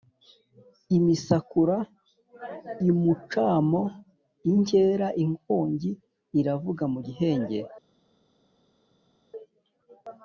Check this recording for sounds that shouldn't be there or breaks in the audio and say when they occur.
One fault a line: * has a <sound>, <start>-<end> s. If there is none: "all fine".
all fine